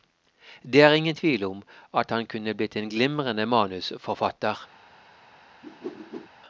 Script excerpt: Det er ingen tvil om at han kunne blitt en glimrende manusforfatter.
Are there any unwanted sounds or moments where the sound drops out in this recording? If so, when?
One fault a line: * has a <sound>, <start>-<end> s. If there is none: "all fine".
* has a whoosh, 5.6-6.3 s